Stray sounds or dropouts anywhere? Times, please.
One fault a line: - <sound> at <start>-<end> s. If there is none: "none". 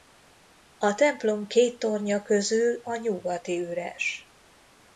none